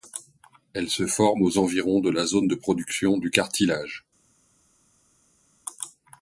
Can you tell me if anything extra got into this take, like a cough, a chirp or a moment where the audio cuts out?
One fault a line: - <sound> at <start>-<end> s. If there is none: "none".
none